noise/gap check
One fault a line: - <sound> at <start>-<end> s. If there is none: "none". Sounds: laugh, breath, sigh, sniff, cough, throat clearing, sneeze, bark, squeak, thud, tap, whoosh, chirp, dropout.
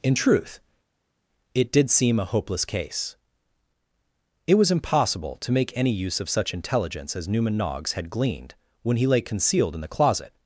none